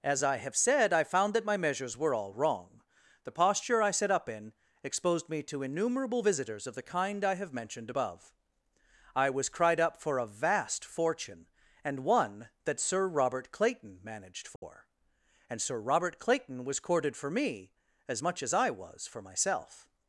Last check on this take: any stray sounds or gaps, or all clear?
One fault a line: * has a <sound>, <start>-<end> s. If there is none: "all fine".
* has a dropout, 14.6-14.6 s